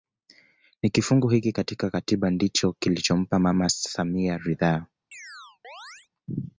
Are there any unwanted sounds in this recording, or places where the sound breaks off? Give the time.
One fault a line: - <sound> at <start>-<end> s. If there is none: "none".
- chirp at 5.1-6.1 s